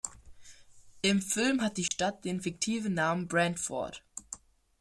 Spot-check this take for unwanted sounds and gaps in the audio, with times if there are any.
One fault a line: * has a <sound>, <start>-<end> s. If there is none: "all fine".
* has a dropout, 1.9-1.9 s